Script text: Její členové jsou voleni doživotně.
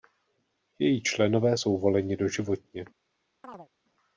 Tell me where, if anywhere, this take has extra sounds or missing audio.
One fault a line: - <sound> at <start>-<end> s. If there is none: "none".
- chirp at 3.4-3.7 s